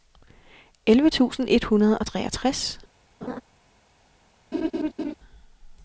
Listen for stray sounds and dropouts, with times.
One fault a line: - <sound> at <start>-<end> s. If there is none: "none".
- laugh at 3.2-3.4 s
- laugh at 4.5-5.1 s